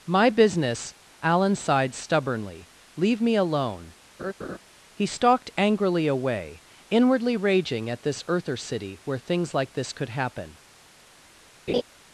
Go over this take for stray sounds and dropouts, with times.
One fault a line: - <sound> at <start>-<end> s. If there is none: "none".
- laugh at 4.2-4.6 s
- laugh at 11.7-11.8 s